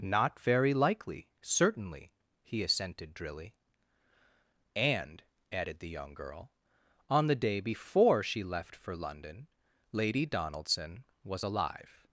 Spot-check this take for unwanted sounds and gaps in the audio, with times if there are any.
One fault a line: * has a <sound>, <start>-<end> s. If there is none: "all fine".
all fine